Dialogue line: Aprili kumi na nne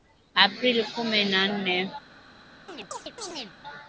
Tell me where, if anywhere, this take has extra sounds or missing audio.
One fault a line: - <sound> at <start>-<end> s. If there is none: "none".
- chirp at 2.7-3.6 s